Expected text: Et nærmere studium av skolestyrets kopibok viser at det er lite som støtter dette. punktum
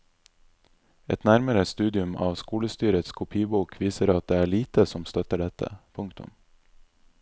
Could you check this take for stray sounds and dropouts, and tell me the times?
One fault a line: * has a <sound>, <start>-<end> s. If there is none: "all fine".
all fine